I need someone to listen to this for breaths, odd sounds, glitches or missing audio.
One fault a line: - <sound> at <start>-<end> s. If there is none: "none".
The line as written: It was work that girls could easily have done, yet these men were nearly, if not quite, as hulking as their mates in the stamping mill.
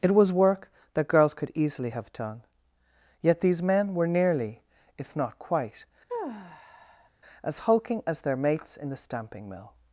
- sigh at 6.1-7.1 s